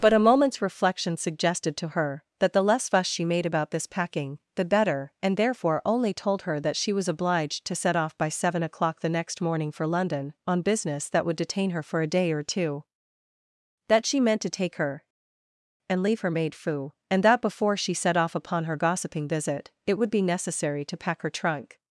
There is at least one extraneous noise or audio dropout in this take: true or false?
false